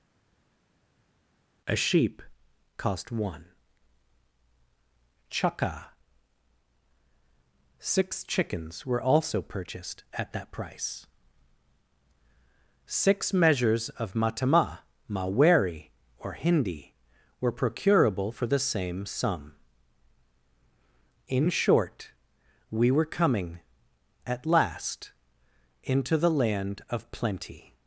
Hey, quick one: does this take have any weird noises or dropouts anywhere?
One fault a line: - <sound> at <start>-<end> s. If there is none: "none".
none